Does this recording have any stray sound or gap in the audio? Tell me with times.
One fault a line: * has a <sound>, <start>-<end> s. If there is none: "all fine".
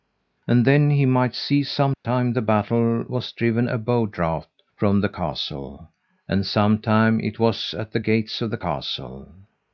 * has a dropout, 1.9-2.0 s